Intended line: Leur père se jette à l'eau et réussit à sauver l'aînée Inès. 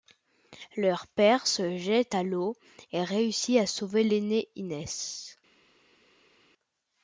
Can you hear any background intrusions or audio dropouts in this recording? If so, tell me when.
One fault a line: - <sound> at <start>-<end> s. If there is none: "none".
none